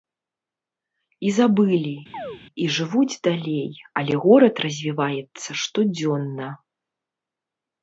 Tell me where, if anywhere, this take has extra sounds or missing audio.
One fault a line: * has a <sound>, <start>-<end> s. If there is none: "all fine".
* has a chirp, 2.1-2.4 s